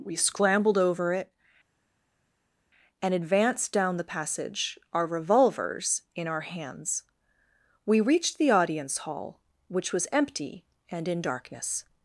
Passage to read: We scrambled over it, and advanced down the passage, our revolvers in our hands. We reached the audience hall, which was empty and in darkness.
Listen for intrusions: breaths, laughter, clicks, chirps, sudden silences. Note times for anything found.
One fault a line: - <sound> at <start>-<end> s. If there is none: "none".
none